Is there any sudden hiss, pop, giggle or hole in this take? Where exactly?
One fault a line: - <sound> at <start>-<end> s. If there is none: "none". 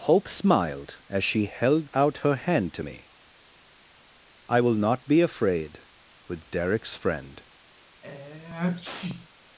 - sneeze at 8.0-9.3 s